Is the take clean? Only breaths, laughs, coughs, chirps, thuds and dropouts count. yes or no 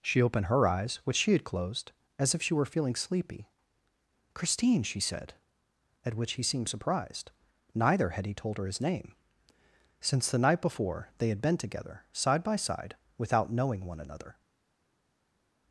yes